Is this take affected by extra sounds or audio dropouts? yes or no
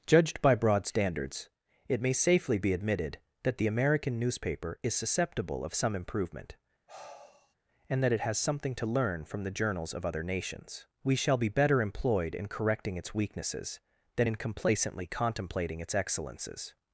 yes